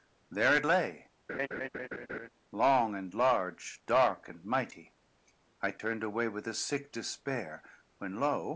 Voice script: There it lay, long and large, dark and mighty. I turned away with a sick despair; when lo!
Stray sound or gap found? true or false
true